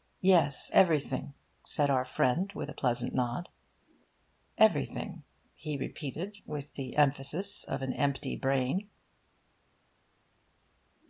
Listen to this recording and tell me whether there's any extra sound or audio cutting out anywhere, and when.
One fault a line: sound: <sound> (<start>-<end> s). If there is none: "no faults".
no faults